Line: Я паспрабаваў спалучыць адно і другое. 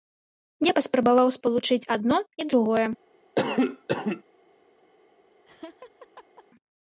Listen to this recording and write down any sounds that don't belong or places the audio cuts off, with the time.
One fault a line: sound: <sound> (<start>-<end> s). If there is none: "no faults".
sound: cough (3.3-4.2 s)
sound: laugh (5.5-6.4 s)